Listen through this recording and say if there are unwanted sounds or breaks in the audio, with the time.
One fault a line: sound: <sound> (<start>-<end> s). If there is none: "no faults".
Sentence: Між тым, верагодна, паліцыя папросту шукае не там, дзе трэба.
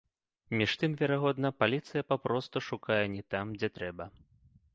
no faults